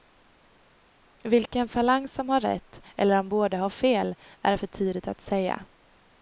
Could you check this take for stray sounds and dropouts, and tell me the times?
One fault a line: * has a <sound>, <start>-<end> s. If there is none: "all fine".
all fine